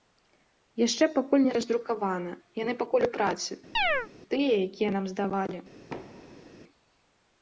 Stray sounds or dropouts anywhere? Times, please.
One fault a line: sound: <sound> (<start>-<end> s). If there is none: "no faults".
sound: chirp (3.7-4.1 s)
sound: thud (5.9-6.5 s)